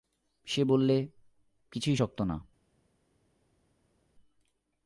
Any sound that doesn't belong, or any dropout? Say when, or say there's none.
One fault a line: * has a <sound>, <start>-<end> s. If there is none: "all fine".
all fine